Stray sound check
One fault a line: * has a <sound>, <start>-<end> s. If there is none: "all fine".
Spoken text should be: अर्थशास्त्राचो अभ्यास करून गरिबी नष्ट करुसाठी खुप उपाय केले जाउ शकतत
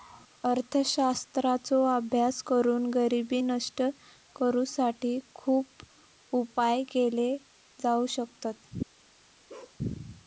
* has a bark, 9.5-9.8 s